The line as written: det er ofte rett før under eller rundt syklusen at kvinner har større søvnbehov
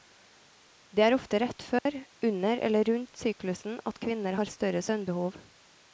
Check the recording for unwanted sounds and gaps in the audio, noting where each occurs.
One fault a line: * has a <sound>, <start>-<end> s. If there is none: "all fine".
* has a dropout, 1.8-1.9 s